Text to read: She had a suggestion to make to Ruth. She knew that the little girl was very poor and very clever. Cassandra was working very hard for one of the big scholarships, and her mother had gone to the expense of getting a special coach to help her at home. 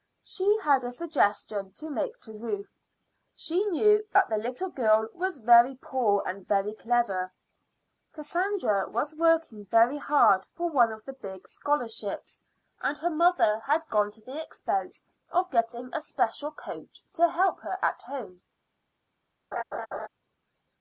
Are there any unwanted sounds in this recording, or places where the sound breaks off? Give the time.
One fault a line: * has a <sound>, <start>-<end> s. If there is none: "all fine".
* has a laugh, 19.5-20.1 s